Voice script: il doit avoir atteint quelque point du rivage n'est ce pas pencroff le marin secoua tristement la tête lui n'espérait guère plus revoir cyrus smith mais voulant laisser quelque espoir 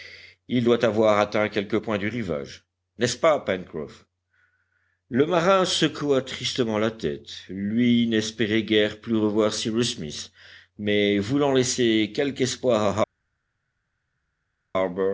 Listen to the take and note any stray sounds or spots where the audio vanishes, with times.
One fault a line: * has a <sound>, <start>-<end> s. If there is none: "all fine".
all fine